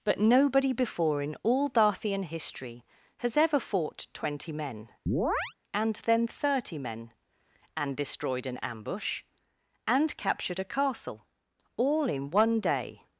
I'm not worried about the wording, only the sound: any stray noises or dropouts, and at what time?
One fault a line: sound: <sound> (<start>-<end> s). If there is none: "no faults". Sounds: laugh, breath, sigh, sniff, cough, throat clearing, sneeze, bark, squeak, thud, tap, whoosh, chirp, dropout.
sound: chirp (5.1-5.5 s)